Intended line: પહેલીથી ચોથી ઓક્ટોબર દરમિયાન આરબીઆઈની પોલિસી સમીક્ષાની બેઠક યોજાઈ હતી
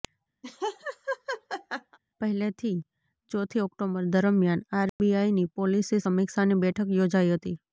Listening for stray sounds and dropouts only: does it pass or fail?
fail